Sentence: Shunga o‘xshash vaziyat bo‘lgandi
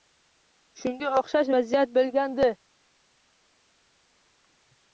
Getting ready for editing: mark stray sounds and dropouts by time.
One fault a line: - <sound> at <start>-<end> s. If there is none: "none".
none